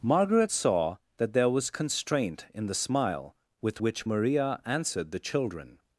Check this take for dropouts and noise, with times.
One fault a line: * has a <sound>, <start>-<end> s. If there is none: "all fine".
all fine